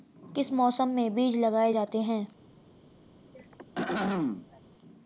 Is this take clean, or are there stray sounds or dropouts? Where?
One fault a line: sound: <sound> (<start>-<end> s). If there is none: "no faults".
sound: throat clearing (3.3-4.6 s)